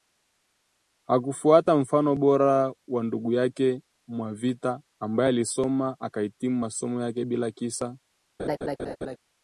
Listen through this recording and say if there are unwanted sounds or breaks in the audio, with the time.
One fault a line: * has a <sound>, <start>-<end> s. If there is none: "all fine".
* has a laugh, 8.4-9.2 s